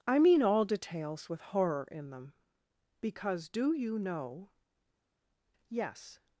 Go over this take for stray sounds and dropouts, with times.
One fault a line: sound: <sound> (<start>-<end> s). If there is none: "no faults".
no faults